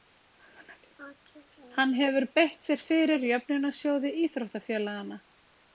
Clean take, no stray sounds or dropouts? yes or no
yes